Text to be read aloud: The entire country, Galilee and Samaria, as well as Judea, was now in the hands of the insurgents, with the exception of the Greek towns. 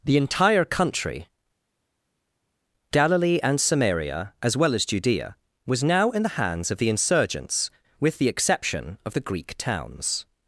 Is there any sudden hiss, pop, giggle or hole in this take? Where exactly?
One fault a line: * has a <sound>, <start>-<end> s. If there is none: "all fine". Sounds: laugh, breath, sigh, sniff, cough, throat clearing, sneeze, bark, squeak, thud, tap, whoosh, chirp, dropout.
all fine